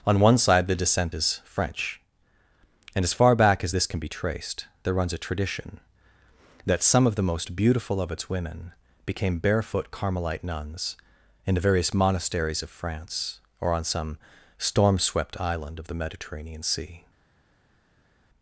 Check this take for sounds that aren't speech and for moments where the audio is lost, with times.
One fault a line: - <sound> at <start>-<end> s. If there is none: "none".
none